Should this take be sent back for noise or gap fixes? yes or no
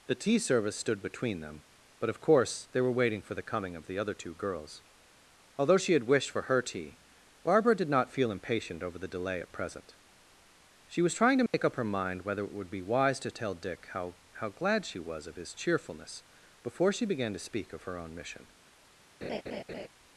yes